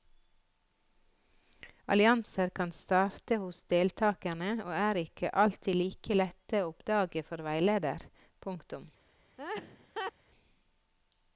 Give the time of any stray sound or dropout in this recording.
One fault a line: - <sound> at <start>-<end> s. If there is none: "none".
- laugh at 9.4-10.1 s